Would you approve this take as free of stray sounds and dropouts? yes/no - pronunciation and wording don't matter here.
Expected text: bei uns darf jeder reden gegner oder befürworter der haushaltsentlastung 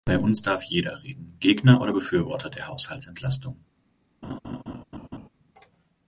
no